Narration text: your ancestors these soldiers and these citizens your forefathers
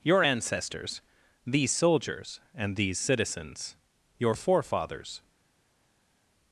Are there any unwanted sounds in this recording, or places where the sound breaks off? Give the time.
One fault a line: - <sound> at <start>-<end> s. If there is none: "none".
none